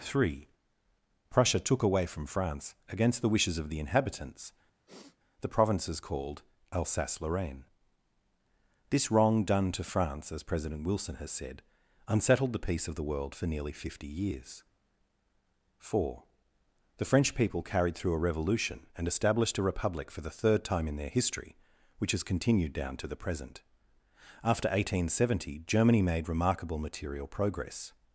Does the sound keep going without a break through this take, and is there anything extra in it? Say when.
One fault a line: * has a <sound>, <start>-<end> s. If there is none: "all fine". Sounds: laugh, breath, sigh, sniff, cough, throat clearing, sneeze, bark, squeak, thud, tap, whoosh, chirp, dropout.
* has a sniff, 4.9-5.2 s